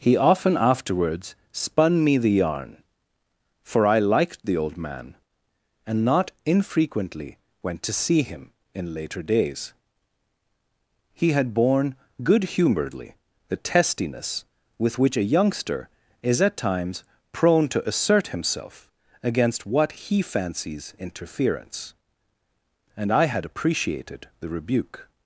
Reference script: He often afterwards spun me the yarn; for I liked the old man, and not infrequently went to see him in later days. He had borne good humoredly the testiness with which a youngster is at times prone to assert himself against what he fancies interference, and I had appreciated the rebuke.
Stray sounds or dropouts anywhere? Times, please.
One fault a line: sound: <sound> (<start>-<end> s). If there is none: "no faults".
no faults